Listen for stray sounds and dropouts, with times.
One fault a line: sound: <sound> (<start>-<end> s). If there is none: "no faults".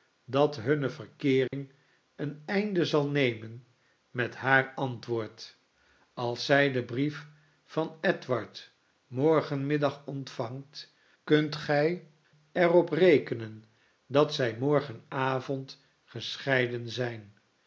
sound: dropout (1.5-1.5 s)